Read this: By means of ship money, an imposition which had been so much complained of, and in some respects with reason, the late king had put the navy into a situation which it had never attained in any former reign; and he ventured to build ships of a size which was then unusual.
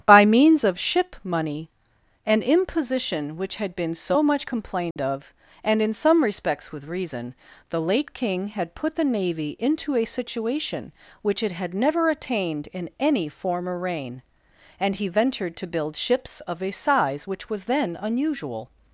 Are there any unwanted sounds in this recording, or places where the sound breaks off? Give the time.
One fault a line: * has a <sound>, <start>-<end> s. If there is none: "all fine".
* has a dropout, 4.9-5.0 s